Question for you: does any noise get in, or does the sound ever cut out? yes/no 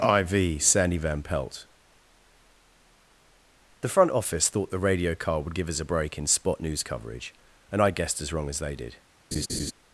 yes